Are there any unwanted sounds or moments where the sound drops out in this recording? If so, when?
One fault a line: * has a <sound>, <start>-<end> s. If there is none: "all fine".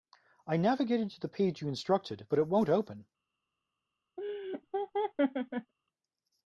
* has a laugh, 4.2-5.7 s